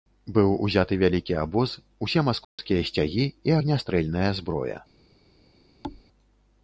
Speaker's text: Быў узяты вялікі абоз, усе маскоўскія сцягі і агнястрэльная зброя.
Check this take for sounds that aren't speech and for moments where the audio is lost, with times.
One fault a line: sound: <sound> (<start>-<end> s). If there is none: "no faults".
sound: dropout (2.4-2.6 s)
sound: thud (5.8-6.0 s)